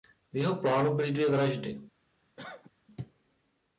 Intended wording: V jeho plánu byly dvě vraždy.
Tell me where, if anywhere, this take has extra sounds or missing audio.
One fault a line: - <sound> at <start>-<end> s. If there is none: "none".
- cough at 2.4-2.7 s